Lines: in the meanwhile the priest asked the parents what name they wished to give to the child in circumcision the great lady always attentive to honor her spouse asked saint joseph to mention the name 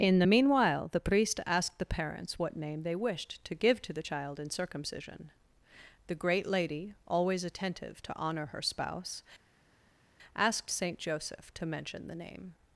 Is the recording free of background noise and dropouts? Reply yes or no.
yes